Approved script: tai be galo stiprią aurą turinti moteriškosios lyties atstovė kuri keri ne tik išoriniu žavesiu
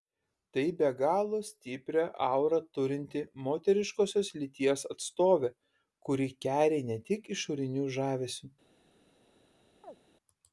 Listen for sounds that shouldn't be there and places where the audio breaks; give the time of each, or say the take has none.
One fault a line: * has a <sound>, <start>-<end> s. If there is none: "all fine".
* has a chirp, 9.8-10.0 s